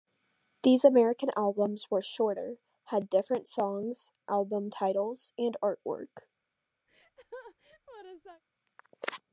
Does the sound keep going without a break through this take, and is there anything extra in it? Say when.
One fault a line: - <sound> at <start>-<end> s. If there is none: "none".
- laugh at 6.9-8.4 s